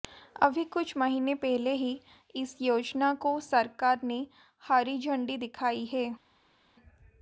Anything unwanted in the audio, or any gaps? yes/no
no